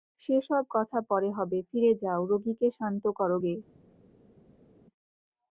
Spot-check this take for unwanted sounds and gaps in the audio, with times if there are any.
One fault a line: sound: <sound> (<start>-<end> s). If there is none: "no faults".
no faults